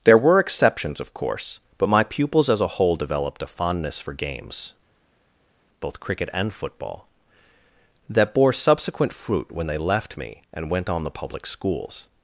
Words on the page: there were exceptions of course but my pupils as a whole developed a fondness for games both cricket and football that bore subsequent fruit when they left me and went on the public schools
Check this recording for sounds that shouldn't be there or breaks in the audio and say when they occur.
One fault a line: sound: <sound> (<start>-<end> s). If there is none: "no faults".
no faults